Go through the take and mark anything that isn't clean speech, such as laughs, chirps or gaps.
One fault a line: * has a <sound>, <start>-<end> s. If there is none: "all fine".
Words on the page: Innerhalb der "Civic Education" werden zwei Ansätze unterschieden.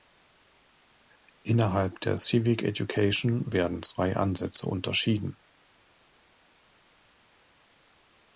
all fine